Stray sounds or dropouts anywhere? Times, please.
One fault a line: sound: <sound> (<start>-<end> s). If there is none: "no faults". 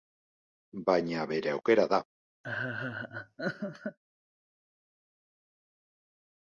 sound: laugh (2.4-4.0 s)